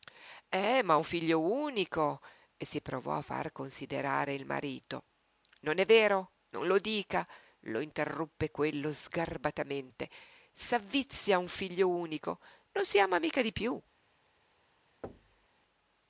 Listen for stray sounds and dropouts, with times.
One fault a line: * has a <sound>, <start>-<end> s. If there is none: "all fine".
* has a thud, 15.0-15.5 s